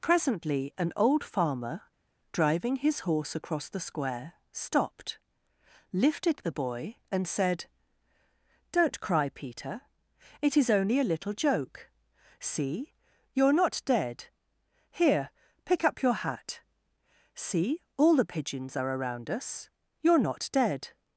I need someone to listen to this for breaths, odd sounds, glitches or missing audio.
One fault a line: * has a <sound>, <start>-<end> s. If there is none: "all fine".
all fine